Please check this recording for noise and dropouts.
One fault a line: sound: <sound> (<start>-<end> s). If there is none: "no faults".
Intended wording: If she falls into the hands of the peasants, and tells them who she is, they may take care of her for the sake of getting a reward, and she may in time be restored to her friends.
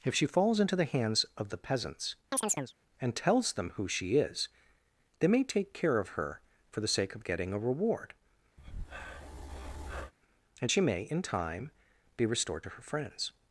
sound: chirp (2.3-2.7 s)
sound: breath (8.6-10.1 s)